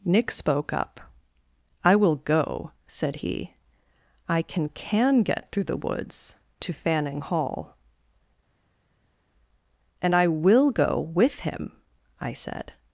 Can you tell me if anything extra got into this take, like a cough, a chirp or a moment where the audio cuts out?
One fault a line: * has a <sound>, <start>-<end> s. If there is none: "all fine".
all fine